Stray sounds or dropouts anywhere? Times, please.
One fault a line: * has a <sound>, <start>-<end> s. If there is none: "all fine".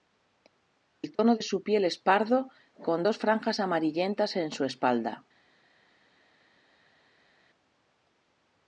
all fine